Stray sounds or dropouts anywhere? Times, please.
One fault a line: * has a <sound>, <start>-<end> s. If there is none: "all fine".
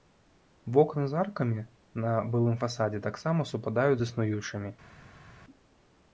all fine